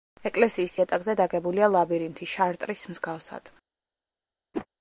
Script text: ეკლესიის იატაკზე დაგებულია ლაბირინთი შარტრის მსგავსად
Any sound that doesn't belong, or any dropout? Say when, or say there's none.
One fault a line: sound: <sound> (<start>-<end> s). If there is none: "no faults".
sound: whoosh (4.5-4.7 s)